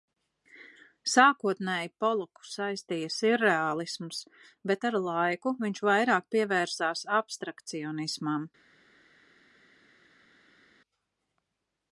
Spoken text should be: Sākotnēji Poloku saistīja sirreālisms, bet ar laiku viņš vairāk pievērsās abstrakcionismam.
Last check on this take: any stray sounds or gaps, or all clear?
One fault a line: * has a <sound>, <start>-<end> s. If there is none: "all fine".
all fine